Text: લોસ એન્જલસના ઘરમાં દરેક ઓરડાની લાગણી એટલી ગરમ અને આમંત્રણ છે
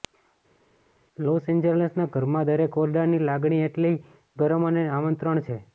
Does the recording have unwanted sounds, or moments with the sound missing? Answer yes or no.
no